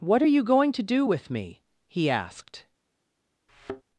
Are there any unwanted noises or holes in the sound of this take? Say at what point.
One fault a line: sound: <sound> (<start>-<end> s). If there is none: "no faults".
sound: thud (3.5-3.8 s)